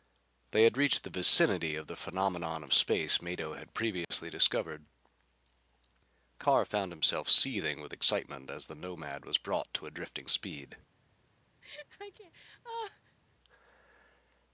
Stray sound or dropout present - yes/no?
yes